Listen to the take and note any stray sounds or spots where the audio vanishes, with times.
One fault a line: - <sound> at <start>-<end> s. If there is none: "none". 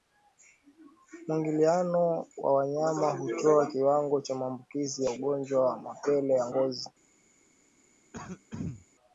- throat clearing at 8.1-8.9 s